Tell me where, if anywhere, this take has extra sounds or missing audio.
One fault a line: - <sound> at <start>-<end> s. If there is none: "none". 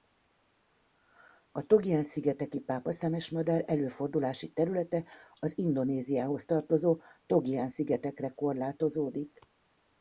none